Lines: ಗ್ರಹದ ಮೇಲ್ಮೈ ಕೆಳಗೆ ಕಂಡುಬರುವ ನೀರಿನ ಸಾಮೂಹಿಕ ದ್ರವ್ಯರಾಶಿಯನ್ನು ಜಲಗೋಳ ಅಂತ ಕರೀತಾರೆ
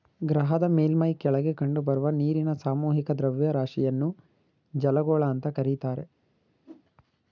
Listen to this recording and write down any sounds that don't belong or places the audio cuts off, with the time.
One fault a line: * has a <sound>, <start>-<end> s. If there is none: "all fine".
* has a whoosh, 6.6-6.8 s